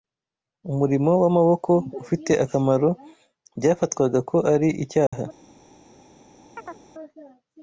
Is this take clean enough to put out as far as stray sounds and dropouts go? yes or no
no